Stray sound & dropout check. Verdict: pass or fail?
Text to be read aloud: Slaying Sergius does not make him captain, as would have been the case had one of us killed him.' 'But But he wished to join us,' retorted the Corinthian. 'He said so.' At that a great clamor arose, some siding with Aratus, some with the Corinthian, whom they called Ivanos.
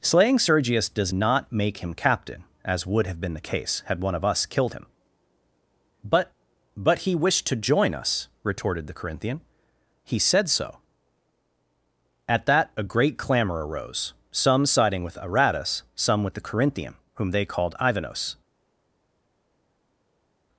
pass